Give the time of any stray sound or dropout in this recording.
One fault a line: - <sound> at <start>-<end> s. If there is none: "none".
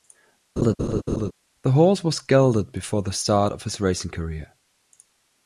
- laugh at 0.6-1.3 s